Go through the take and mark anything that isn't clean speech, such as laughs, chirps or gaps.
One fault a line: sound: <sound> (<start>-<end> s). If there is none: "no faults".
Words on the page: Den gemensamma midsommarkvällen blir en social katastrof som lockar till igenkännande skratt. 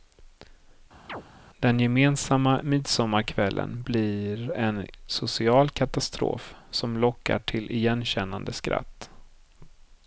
sound: chirp (1.1-1.2 s)